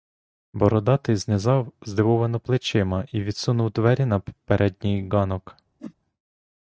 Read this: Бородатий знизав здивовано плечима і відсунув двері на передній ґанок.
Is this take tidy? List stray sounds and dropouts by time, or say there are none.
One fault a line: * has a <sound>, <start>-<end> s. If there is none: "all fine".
* has a whoosh, 5.8-5.9 s